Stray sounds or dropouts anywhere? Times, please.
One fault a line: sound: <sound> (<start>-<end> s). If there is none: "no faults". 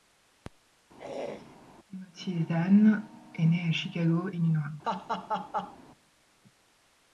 sound: throat clearing (1.0-1.6 s)
sound: laugh (4.8-5.8 s)